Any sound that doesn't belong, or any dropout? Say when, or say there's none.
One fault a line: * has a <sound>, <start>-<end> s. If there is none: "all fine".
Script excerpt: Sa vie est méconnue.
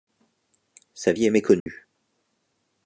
* has a dropout, 1.6-1.7 s